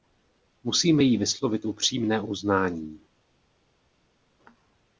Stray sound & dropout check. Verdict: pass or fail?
pass